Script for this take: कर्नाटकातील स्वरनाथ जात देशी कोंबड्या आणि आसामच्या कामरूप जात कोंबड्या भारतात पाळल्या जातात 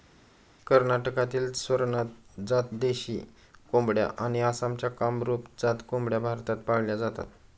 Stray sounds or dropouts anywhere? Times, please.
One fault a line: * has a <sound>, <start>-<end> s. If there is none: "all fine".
all fine